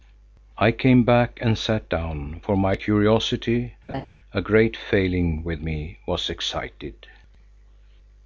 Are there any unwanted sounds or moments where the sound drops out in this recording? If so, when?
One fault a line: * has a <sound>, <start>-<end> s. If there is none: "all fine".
* has a laugh, 3.9-4.1 s